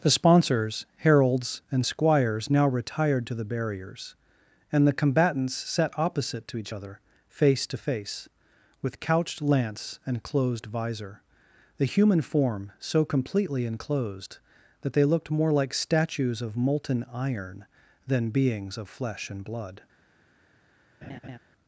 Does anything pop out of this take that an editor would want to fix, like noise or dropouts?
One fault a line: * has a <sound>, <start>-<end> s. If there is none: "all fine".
* has a laugh, 21.0-21.4 s